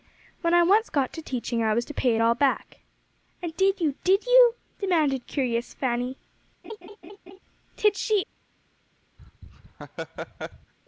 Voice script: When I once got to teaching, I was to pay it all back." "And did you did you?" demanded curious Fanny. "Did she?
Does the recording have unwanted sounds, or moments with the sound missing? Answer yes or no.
yes